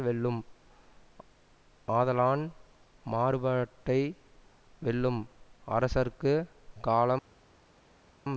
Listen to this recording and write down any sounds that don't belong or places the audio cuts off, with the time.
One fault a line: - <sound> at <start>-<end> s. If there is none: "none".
none